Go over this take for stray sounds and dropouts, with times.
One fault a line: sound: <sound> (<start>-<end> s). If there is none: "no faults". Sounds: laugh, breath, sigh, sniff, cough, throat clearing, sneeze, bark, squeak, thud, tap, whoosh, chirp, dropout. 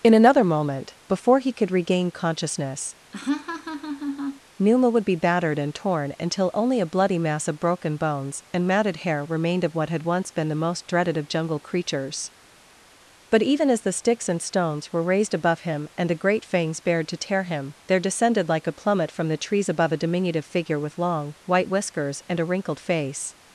sound: laugh (3.1-4.4 s)